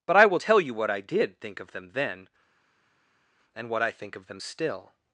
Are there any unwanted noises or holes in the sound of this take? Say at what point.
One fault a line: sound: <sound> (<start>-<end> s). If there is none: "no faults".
no faults